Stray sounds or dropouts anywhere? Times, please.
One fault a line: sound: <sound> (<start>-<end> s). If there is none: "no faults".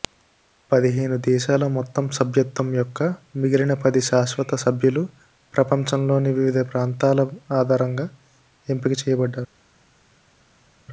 no faults